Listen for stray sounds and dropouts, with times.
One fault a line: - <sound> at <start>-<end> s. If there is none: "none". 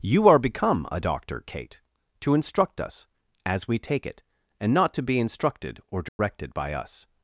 - dropout at 6.1-6.2 s